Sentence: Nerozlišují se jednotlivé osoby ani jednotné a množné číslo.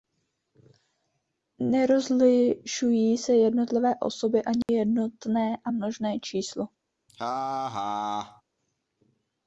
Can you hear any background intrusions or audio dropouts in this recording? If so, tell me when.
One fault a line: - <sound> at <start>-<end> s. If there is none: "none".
- dropout at 4.6-4.7 s
- laugh at 7.1-8.4 s